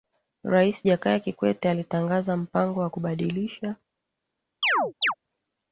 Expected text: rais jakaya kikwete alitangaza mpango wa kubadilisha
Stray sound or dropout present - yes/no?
yes